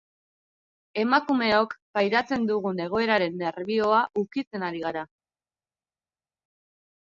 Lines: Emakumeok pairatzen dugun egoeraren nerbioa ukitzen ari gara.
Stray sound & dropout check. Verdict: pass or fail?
pass